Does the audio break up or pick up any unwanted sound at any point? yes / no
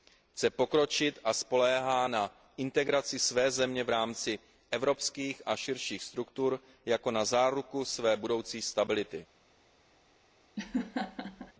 yes